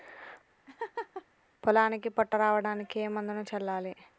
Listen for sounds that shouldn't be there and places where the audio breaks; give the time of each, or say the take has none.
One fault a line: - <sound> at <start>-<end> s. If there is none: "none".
- laugh at 0.7-1.3 s